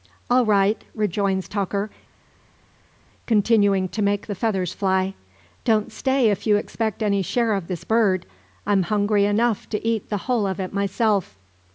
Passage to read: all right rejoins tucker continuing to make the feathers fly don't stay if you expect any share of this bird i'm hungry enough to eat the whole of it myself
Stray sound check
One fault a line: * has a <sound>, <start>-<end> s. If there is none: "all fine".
all fine